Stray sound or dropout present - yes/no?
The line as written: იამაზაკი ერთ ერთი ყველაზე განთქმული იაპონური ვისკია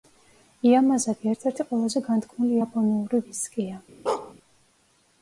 yes